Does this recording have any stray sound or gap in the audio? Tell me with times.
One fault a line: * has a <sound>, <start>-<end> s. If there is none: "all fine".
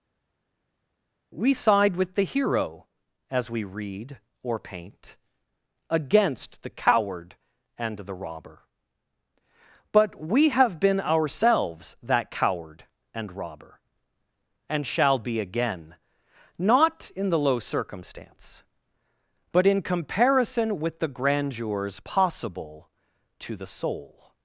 all fine